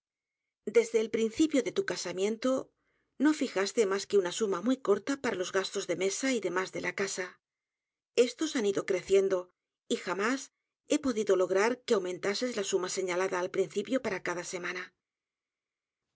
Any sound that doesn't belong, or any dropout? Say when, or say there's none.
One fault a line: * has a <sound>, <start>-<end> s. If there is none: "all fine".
all fine